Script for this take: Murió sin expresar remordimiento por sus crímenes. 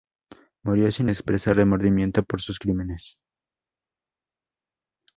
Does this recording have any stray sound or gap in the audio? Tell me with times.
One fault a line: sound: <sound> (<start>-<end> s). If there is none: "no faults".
no faults